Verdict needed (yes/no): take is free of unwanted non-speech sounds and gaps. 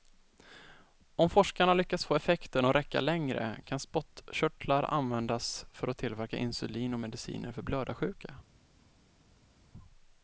yes